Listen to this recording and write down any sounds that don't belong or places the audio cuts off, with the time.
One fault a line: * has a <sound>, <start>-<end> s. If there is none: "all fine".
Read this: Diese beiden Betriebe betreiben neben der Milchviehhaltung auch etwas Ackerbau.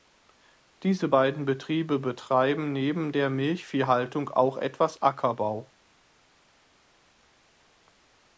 all fine